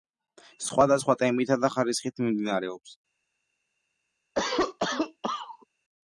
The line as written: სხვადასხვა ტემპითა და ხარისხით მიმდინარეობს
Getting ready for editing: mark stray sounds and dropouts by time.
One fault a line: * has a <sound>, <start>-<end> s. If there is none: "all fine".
* has a cough, 4.4-5.7 s